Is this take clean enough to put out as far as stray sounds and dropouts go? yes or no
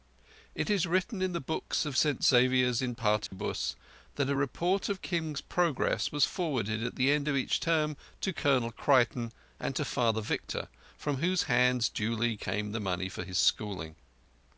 no